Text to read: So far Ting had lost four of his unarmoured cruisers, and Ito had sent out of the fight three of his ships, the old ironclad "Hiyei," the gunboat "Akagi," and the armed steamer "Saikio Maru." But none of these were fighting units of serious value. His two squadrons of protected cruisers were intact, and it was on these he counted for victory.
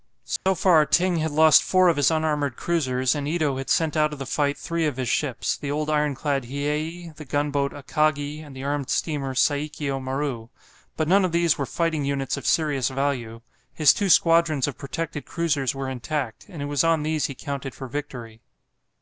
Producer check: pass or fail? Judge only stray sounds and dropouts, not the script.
fail